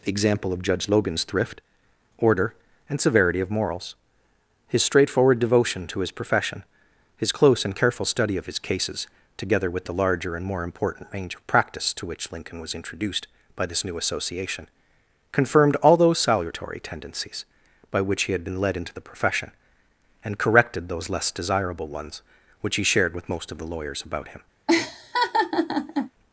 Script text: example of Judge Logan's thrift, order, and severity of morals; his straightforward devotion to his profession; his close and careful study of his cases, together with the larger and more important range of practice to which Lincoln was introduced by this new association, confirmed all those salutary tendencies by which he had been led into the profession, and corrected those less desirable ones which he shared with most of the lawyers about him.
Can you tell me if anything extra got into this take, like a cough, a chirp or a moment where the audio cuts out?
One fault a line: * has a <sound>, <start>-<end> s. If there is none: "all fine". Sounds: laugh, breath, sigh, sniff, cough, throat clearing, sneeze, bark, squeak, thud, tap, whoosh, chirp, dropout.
* has a laugh, 24.7-26.1 s